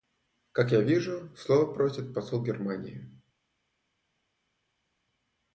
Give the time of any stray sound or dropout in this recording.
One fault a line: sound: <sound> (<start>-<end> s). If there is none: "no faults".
no faults